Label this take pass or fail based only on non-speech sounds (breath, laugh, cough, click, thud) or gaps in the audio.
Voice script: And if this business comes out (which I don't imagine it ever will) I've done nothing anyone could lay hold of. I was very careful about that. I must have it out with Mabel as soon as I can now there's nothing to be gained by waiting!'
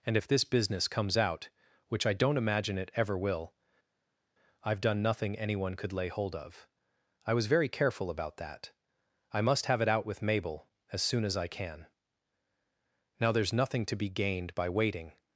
pass